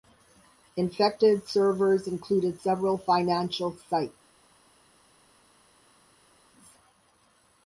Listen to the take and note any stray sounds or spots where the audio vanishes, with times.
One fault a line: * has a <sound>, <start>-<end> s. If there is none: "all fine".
all fine